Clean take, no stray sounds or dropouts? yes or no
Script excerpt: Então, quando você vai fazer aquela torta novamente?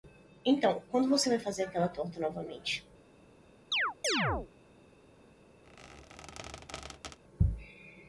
no